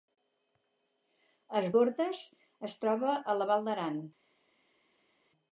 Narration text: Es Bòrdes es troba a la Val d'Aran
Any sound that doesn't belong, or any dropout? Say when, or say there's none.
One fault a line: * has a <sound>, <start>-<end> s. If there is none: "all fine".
all fine